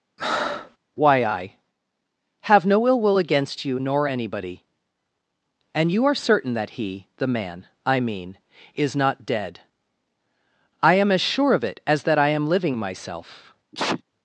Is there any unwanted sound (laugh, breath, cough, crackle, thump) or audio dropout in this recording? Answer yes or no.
yes